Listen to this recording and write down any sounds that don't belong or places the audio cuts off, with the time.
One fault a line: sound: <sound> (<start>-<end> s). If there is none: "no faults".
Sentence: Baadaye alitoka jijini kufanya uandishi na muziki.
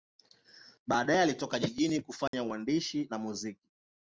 sound: dropout (2.3-2.3 s)